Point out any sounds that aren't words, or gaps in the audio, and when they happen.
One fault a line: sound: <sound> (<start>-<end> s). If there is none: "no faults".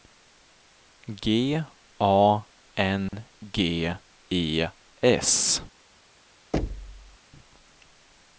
sound: dropout (3.1-3.1 s)
sound: thud (6.5-7.2 s)